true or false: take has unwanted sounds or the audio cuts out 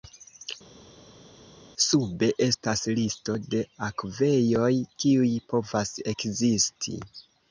false